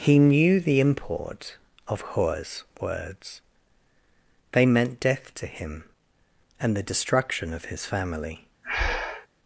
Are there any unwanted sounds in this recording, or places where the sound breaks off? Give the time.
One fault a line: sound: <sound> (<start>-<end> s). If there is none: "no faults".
sound: breath (8.6-9.3 s)